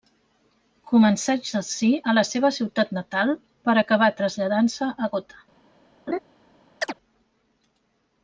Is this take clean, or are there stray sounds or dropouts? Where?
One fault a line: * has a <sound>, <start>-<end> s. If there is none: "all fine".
* has a laugh, 6.1-6.2 s
* has a chirp, 6.8-6.9 s